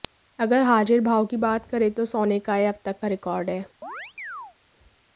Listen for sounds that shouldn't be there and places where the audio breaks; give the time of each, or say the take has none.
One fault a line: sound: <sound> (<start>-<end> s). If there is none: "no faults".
sound: chirp (3.8-4.6 s)